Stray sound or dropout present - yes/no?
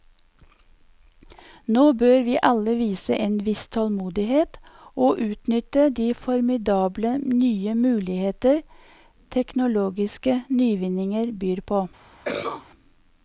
yes